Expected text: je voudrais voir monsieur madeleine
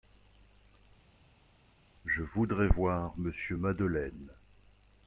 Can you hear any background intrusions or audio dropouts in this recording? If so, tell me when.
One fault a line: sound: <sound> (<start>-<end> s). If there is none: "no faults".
no faults